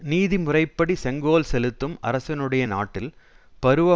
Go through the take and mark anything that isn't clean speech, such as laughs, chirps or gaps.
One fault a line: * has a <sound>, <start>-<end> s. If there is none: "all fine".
all fine